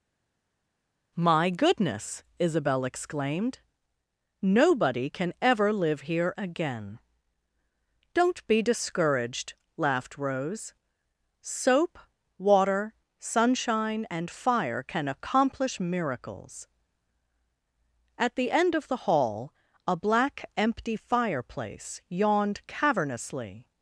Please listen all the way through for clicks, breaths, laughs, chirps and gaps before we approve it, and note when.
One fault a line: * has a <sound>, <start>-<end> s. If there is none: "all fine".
all fine